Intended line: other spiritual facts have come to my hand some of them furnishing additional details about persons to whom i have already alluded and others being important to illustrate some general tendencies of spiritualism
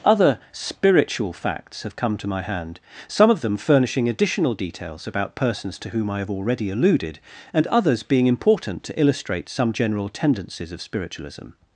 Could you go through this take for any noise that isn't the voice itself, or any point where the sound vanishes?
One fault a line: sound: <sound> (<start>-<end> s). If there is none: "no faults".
no faults